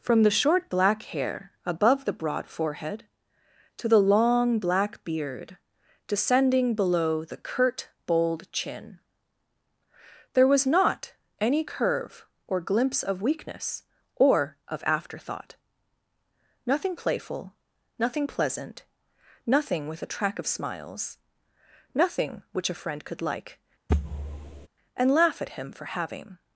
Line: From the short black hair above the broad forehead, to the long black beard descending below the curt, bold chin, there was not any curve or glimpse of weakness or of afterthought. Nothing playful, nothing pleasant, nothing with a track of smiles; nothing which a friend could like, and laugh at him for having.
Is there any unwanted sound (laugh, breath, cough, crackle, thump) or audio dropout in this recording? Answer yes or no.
yes